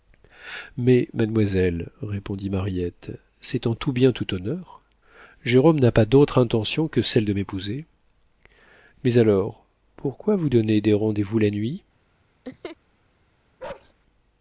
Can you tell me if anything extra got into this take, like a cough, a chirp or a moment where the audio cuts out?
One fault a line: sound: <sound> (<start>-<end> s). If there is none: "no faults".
sound: laugh (12.4-12.8 s)
sound: bark (13.6-13.9 s)